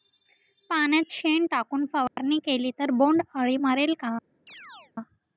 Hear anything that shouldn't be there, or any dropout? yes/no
yes